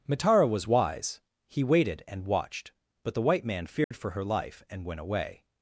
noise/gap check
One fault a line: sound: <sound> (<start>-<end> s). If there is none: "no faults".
sound: dropout (3.8-3.9 s)